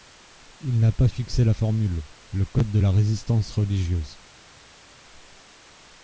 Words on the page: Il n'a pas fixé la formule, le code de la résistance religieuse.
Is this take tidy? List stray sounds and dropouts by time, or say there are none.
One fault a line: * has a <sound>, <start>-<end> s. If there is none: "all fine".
all fine